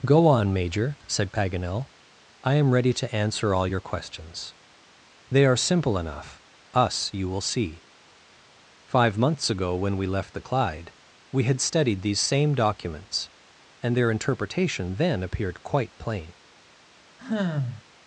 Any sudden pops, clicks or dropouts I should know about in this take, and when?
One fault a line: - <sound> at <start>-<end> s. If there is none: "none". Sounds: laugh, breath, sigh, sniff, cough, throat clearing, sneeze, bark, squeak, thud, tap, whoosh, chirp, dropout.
- sigh at 17.2-17.8 s